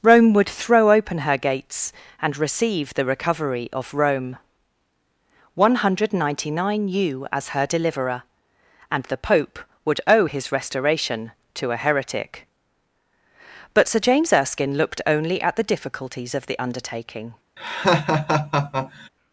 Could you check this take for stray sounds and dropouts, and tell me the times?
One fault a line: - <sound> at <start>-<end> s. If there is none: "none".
- laugh at 17.6-19.1 s